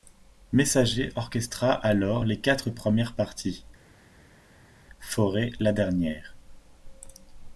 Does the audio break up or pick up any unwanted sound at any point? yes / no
no